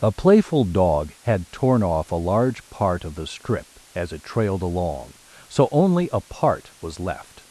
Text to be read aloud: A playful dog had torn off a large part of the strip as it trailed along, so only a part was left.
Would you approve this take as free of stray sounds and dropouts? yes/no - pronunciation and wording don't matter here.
yes